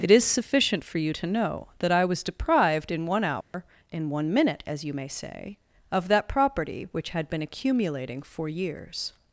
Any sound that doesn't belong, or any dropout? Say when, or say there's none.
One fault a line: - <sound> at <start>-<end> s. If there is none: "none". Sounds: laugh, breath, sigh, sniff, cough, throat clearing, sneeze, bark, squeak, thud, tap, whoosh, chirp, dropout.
- dropout at 3.4-3.5 s